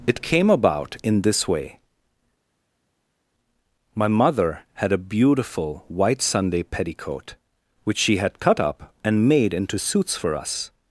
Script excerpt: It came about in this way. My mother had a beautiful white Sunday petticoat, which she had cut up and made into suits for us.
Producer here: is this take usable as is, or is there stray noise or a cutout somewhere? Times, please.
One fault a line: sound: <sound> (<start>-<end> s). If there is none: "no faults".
no faults